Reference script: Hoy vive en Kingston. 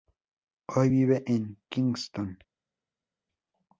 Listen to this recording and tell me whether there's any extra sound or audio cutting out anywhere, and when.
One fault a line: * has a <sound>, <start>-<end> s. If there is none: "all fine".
all fine